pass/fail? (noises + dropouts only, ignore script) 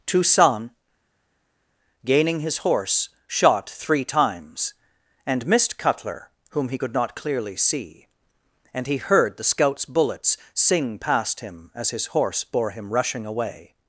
pass